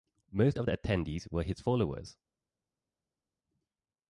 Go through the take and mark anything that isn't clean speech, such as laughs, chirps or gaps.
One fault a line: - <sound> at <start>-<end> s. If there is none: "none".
none